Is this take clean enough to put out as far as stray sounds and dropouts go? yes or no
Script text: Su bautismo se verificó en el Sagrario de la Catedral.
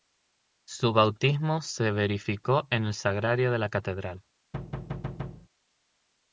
no